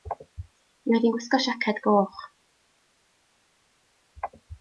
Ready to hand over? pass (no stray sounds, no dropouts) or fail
pass